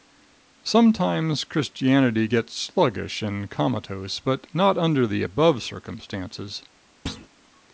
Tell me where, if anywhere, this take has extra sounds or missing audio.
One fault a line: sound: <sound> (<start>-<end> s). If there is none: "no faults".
sound: thud (7.1-7.3 s)